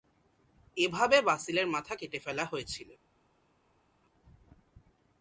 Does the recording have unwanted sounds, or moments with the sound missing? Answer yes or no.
no